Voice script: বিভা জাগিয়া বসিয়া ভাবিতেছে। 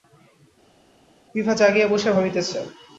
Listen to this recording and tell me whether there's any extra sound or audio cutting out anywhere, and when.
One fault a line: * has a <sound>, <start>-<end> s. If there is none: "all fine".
all fine